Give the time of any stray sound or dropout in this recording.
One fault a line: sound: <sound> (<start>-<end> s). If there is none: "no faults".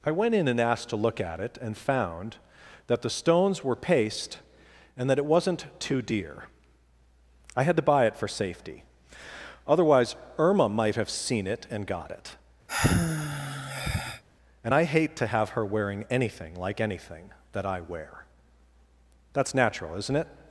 sound: sigh (12.7-14.2 s)